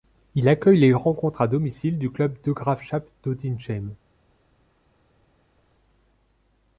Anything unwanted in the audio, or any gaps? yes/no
no